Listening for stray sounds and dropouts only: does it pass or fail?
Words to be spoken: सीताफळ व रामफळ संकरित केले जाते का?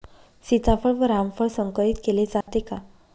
fail